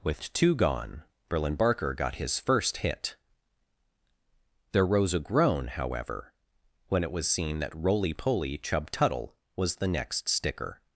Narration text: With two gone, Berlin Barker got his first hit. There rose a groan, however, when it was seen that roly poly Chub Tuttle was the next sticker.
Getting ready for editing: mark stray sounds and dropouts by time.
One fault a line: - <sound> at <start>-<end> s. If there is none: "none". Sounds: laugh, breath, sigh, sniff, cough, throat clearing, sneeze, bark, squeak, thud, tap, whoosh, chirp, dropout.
none